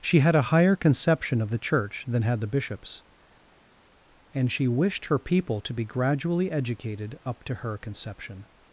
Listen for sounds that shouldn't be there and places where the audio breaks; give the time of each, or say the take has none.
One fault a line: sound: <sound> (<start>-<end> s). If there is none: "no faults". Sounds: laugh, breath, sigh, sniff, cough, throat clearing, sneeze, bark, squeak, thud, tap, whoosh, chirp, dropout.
no faults